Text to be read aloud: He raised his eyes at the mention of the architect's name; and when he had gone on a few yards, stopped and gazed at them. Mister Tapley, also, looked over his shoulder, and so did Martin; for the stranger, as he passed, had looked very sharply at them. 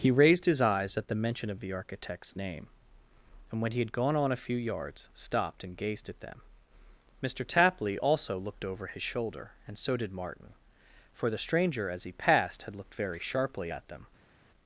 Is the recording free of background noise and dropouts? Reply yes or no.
yes